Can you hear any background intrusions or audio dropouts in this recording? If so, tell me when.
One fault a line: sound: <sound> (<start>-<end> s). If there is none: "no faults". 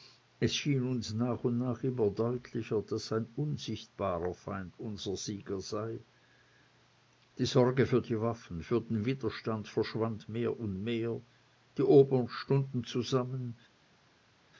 no faults